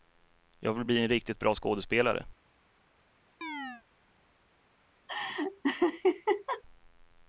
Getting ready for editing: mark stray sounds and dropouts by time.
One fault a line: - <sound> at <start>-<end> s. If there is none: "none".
- chirp at 3.4-3.8 s
- laugh at 5.1-6.6 s